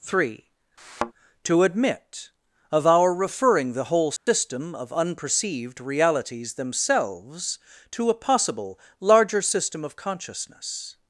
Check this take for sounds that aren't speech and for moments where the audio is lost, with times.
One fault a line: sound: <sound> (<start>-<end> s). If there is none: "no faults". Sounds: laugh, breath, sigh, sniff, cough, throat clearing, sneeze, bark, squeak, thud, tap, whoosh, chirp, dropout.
sound: thud (0.8-1.1 s)
sound: dropout (4.2-4.3 s)